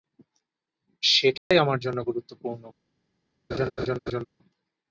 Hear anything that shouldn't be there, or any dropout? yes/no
yes